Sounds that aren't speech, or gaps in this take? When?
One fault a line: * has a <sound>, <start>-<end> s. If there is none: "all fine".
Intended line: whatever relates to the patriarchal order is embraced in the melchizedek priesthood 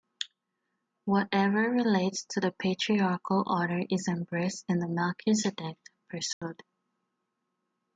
* has a dropout, 6.3-6.4 s